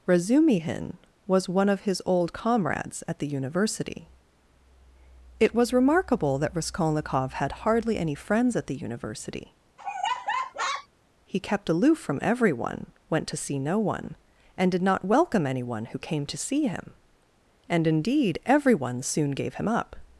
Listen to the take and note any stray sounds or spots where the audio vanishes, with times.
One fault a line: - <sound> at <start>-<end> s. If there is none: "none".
- laugh at 9.8-10.9 s